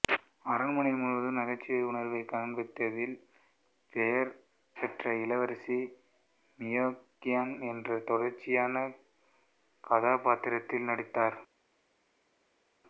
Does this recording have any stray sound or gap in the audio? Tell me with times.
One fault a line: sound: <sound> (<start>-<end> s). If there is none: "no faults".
no faults